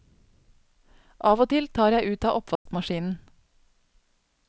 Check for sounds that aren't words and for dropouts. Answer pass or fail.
fail